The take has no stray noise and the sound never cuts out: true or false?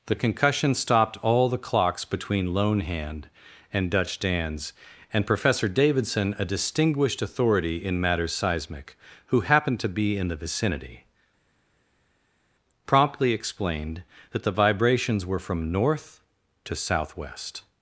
true